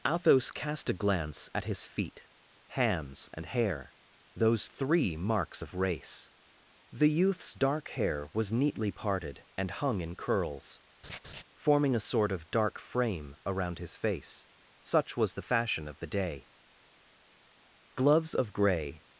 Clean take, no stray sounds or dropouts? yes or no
no